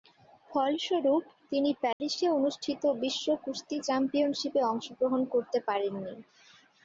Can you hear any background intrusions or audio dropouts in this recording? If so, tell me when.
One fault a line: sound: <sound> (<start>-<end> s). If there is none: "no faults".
sound: dropout (1.9-2.0 s)